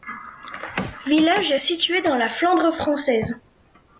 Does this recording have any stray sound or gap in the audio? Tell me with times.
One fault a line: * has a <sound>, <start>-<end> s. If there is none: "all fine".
all fine